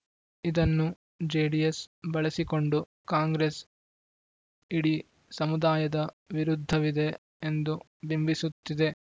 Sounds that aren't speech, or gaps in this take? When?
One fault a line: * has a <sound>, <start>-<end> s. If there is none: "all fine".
all fine